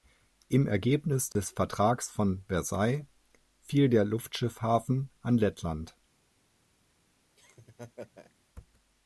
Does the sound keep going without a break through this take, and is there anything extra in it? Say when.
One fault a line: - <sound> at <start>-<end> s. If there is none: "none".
- dropout at 1.3-1.4 s
- laugh at 7.4-8.3 s